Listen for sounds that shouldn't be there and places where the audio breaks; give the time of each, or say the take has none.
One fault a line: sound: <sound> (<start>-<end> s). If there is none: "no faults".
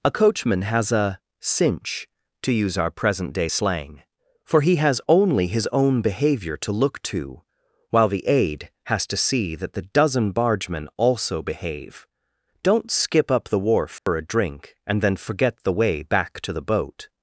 sound: dropout (14.0-14.1 s)